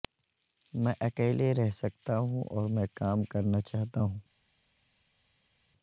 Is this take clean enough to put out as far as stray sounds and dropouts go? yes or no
yes